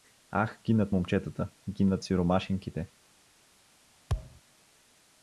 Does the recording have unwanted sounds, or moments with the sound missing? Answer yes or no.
yes